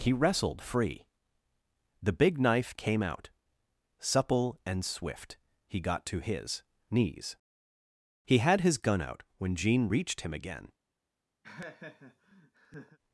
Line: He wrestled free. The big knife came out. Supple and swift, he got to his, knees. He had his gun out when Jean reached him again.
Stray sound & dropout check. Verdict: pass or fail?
fail